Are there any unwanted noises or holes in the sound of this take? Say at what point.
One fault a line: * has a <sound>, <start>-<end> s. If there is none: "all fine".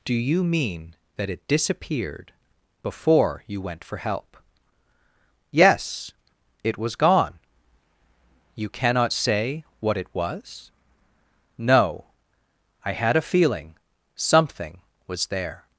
all fine